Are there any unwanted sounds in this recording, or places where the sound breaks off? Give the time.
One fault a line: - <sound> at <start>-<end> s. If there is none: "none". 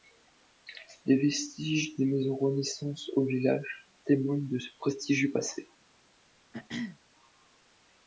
- throat clearing at 6.5-7.0 s